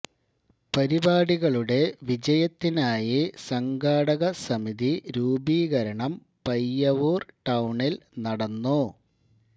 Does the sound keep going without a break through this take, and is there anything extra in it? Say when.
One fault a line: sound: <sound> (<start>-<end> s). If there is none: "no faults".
no faults